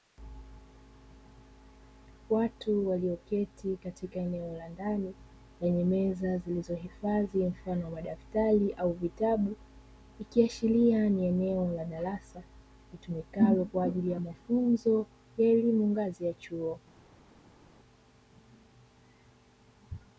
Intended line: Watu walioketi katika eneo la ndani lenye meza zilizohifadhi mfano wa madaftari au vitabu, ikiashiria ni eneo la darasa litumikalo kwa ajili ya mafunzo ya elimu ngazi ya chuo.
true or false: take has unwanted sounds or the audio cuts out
false